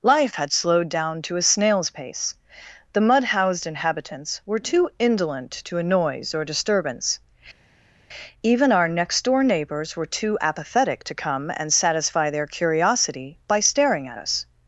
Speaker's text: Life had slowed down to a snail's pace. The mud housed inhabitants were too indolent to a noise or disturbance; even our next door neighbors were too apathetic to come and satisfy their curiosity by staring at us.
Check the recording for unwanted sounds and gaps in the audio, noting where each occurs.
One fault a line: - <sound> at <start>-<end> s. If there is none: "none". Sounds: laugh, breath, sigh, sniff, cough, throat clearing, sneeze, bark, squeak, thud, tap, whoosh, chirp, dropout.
none